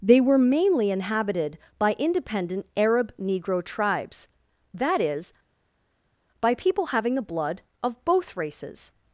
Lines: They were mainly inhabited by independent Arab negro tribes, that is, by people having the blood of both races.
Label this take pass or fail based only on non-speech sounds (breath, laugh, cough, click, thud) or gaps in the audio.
pass